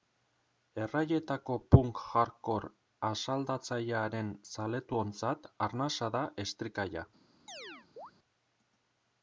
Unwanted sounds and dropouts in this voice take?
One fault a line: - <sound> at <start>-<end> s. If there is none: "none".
- chirp at 7.5-8.1 s